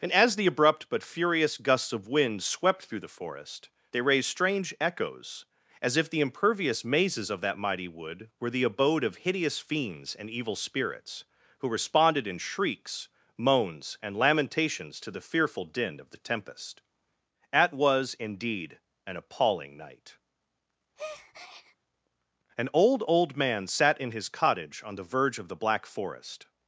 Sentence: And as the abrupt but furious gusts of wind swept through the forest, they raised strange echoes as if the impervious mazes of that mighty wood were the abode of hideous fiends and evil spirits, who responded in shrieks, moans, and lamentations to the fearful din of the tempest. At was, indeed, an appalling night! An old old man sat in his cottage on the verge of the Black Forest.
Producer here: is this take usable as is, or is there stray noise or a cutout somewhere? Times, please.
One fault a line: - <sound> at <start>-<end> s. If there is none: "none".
- breath at 21.0-21.8 s